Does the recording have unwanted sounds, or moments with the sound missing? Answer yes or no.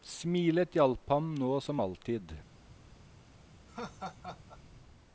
yes